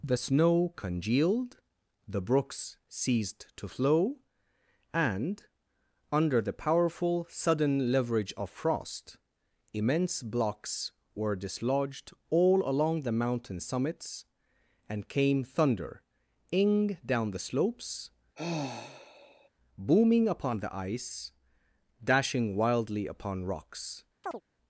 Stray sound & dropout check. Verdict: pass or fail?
fail